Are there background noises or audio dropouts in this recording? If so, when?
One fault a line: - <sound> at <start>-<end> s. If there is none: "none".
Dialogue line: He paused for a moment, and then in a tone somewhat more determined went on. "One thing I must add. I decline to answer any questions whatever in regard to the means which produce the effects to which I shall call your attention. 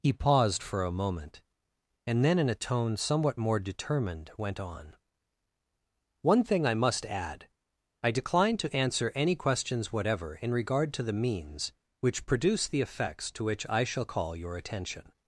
none